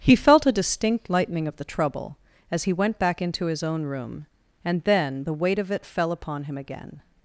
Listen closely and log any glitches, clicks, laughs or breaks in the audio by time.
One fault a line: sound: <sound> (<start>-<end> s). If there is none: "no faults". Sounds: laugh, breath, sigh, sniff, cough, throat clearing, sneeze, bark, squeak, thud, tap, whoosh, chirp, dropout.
no faults